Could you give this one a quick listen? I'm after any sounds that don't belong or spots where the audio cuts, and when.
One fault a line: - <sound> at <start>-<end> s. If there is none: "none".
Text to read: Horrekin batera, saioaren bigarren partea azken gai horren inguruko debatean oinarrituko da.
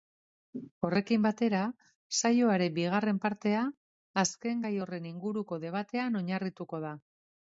none